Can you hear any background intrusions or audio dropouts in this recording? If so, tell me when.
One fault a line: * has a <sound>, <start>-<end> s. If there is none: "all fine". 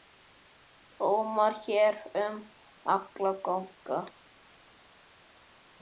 all fine